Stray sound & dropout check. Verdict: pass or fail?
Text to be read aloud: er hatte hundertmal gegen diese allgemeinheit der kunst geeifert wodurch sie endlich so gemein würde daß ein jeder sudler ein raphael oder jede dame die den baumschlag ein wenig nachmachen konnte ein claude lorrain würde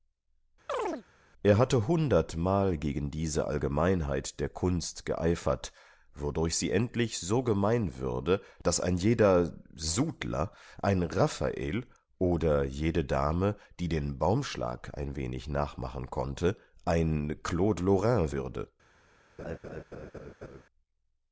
fail